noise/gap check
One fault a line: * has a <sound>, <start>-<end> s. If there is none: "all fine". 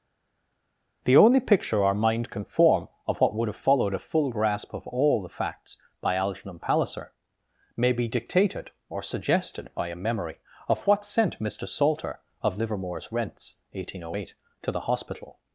all fine